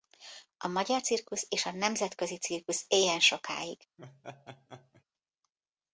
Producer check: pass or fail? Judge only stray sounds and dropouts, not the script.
fail